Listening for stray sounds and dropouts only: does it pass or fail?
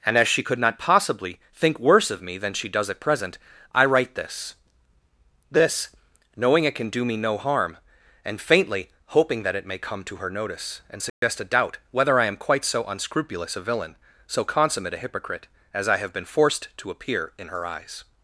fail